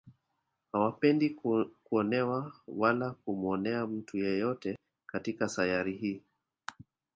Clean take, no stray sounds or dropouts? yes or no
yes